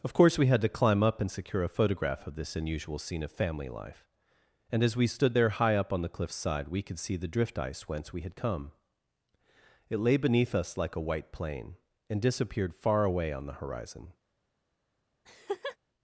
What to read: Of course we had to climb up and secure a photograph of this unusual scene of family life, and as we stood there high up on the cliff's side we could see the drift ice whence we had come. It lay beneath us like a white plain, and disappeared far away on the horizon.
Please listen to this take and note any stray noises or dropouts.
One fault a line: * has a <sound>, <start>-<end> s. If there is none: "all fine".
* has a laugh, 15.2-15.8 s